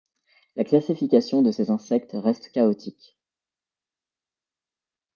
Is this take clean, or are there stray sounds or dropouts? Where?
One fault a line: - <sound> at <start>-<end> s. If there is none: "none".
none